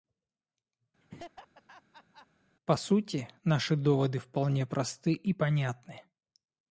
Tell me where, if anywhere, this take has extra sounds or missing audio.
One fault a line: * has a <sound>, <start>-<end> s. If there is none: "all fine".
* has a laugh, 1.0-2.3 s